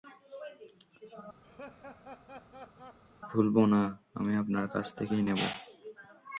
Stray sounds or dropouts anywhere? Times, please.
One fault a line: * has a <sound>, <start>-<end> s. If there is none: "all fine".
* has a laugh, 1.4-3.0 s